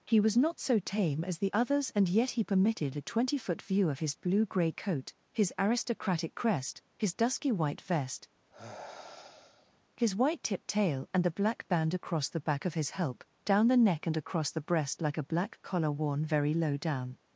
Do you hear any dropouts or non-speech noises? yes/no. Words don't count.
yes